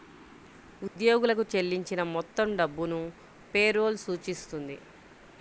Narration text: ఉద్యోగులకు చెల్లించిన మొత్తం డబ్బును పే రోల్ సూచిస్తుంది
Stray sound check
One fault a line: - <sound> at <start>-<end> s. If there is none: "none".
- dropout at 0.9-1.0 s